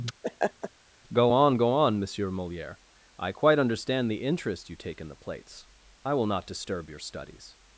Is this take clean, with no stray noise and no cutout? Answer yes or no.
no